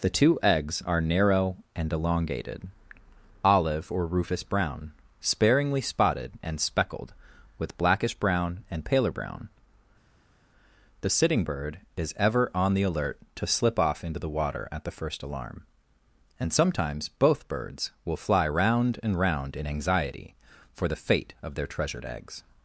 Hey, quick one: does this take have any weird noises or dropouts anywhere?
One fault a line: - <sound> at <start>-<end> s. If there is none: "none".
none